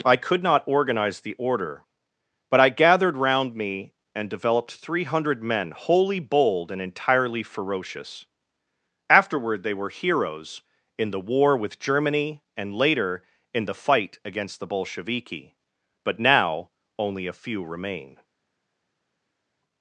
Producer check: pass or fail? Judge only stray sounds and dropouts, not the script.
pass